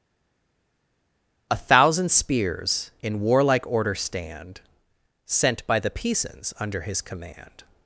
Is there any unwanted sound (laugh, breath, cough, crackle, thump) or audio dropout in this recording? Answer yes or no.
no